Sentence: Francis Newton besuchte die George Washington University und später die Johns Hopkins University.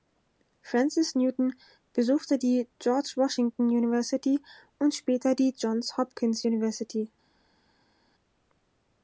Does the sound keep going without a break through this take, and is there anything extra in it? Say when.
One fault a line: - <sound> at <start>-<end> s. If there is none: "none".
none